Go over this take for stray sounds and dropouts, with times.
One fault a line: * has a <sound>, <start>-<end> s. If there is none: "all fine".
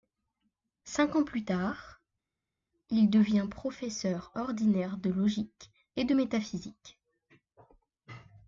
all fine